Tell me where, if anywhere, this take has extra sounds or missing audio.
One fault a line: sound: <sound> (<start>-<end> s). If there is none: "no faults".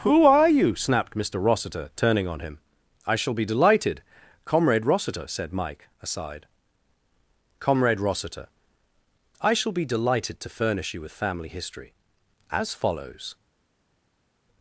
no faults